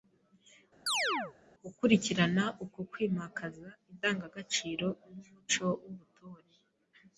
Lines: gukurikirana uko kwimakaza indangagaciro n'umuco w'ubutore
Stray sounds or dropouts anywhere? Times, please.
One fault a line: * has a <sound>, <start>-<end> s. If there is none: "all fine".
* has a chirp, 0.9-1.3 s